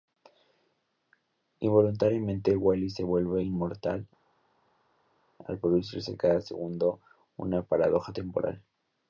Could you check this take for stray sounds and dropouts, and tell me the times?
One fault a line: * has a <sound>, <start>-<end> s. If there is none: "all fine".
all fine